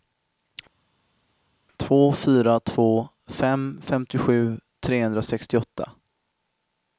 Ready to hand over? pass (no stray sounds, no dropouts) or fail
pass